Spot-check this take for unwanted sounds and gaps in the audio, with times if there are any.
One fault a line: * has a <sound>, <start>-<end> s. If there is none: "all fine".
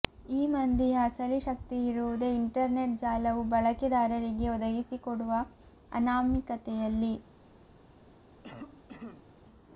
* has a cough, 8.4-9.3 s